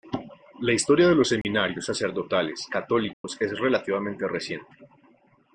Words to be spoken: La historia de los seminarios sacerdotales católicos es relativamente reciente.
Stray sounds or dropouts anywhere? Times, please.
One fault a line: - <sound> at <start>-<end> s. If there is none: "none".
- dropout at 1.4-1.4 s
- dropout at 3.1-3.2 s